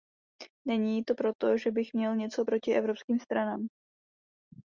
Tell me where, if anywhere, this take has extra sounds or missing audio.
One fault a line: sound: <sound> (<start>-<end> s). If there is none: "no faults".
no faults